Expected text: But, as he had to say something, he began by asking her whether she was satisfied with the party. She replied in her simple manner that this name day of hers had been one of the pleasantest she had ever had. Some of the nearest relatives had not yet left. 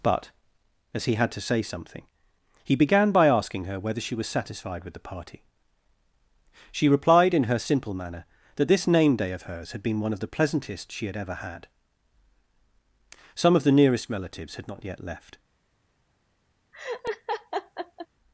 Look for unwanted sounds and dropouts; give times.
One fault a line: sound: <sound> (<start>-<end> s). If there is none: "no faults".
sound: laugh (16.7-18.1 s)